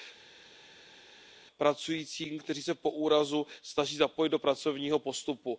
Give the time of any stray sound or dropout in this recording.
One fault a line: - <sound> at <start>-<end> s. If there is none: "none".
none